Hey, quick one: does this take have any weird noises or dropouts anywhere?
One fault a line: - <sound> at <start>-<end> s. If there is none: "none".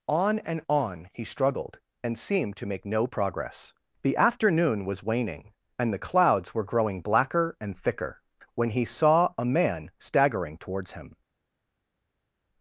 none